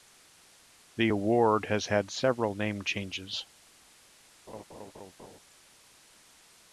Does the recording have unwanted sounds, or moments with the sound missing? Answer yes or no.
yes